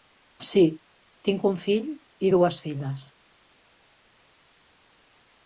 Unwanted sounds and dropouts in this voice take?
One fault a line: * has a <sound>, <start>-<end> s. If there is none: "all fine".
all fine